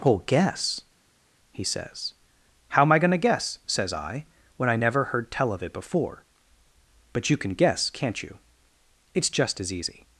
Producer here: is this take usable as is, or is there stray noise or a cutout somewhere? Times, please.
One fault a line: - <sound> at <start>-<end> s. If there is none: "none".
none